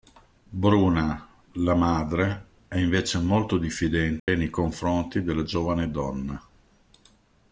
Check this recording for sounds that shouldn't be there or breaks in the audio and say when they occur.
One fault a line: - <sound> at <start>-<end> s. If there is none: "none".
- dropout at 4.2-4.3 s